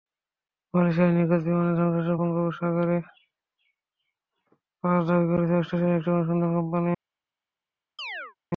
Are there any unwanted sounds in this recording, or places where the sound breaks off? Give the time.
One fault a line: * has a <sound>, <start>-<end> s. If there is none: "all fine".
* has a chirp, 8.0-8.4 s